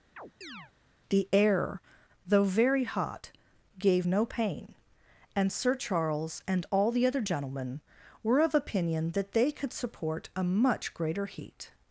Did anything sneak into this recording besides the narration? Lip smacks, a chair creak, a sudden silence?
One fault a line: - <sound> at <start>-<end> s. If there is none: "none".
- chirp at 0.2-0.7 s